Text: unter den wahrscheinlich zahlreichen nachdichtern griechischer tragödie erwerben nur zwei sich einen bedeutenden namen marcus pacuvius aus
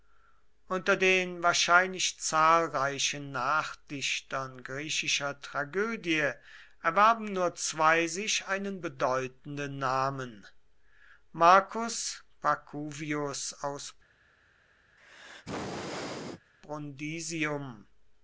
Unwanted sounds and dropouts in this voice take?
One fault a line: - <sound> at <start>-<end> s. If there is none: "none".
- sneeze at 15.0-16.5 s